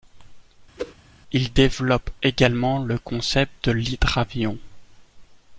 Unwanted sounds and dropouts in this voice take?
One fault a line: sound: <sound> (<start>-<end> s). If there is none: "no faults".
sound: whoosh (0.8-0.9 s)